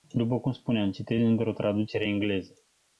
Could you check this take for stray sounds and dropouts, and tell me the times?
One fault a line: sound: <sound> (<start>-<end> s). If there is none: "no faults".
no faults